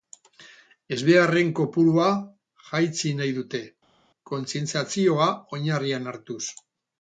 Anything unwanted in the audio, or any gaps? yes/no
no